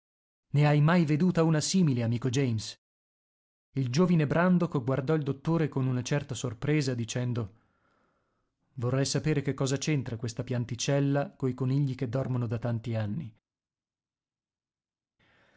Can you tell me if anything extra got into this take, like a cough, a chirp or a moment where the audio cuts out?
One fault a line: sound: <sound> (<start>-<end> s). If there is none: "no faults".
no faults